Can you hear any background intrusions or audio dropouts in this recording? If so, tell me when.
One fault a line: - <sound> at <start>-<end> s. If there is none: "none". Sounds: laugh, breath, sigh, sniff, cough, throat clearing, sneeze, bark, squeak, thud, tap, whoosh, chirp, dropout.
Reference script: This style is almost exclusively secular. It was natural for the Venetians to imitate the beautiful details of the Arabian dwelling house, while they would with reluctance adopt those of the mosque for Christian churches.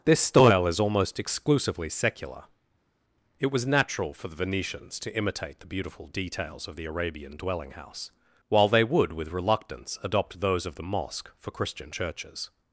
none